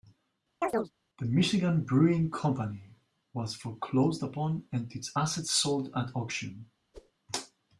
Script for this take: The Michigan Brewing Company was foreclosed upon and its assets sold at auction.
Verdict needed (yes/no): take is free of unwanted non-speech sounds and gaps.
no